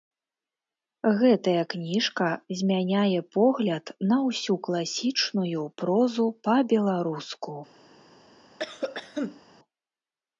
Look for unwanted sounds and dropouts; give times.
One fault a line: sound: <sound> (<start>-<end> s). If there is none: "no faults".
sound: cough (8.6-9.4 s)